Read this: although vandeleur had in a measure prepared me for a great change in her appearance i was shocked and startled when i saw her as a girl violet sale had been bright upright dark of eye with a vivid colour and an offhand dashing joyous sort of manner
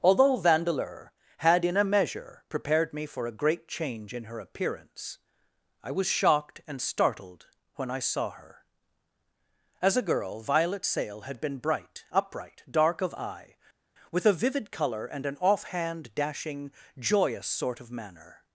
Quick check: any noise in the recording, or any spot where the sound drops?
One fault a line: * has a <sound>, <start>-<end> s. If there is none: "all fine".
all fine